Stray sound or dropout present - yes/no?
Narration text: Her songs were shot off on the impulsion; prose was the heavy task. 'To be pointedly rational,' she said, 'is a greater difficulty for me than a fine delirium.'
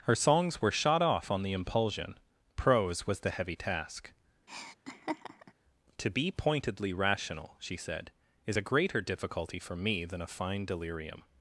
yes